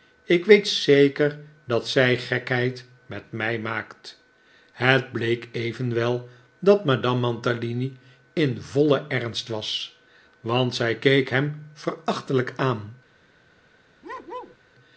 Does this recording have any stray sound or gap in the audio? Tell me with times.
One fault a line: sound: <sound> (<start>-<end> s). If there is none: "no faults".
sound: bark (14.0-14.6 s)